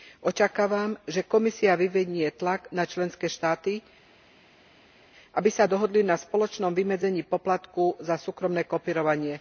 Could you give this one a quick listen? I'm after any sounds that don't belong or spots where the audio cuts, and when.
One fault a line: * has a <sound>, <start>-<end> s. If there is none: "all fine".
all fine